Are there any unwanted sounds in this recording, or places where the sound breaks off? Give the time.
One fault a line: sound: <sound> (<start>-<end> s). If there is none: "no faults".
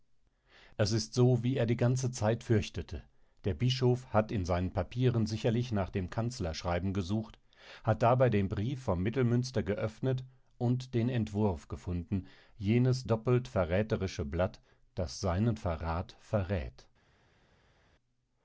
no faults